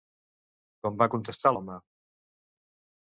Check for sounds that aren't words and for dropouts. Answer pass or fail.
pass